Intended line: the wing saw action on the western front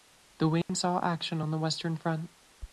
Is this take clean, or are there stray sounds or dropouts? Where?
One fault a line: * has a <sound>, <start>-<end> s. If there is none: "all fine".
* has a dropout, 0.6-0.7 s